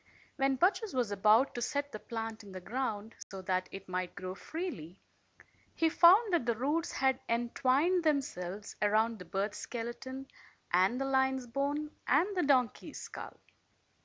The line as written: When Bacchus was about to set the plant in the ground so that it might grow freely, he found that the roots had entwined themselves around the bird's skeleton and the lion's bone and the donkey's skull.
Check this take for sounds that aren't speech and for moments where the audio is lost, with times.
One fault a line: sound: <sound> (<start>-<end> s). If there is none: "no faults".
sound: dropout (3.2-3.3 s)